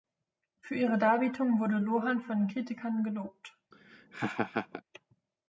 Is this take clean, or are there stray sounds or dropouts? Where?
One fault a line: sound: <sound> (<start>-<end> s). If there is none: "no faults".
sound: laugh (3.7-4.8 s)